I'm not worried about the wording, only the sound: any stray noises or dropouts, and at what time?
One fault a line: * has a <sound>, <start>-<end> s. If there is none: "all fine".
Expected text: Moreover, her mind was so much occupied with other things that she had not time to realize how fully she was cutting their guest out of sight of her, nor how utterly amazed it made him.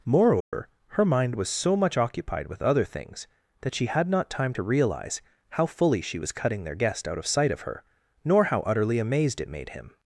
* has a dropout, 0.4-0.5 s